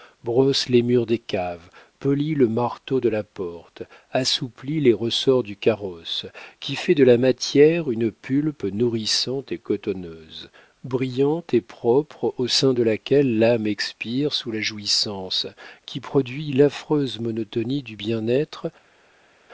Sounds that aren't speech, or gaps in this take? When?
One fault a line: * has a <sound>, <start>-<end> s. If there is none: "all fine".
all fine